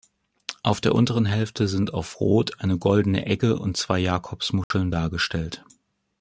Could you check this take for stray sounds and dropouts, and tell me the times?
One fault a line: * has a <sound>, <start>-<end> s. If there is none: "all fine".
* has a dropout, 4.6-4.7 s